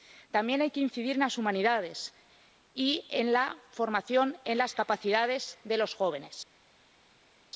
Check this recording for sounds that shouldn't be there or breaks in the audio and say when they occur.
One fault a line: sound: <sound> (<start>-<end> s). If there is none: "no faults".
no faults